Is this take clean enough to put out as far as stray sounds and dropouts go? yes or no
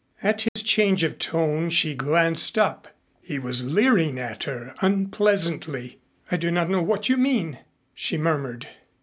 no